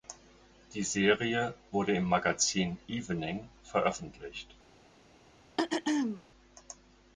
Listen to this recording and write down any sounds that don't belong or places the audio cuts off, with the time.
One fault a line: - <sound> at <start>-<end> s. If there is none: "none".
- throat clearing at 5.6-6.2 s